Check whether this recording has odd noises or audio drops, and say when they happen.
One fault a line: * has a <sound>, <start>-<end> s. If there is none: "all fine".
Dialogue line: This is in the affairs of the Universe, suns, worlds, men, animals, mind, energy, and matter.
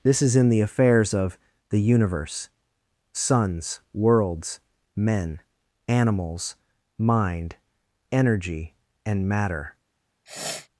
* has a sniff, 10.3-10.7 s